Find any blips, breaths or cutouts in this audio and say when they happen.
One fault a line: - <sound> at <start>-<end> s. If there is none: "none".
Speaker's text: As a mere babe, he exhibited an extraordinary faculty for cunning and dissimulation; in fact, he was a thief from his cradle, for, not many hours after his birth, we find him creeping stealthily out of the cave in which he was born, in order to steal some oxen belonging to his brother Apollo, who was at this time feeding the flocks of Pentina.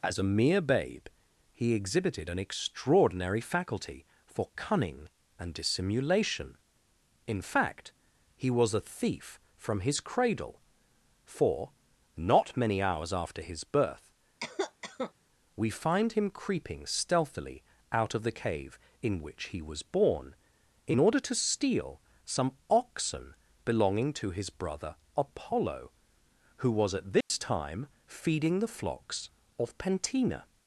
- cough at 14.4-15.1 s
- dropout at 27.2-27.3 s